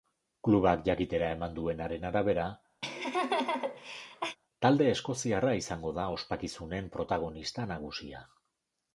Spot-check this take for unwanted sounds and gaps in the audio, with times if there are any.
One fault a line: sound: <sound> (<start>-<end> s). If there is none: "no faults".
sound: laugh (2.8-4.4 s)